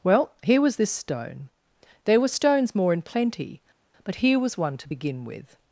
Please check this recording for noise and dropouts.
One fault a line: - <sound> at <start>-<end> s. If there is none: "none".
none